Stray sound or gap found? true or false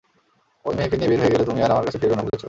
true